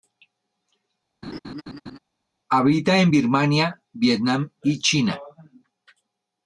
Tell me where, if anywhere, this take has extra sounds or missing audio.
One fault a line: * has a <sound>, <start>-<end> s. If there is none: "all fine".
* has a laugh, 1.2-2.0 s